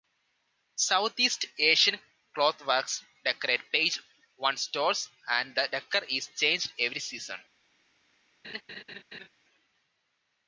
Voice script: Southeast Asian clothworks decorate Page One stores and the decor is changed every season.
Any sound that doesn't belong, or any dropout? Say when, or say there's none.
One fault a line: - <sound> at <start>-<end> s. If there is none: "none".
- laugh at 8.4-9.3 s